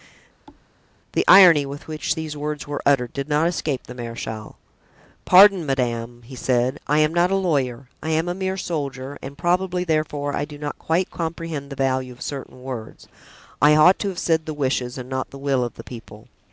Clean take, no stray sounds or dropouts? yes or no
no